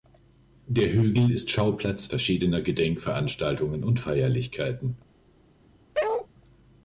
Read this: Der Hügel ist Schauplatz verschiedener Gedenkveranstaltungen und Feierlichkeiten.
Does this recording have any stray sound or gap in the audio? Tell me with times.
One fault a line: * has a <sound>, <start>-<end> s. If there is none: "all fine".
* has a bark, 5.9-6.3 s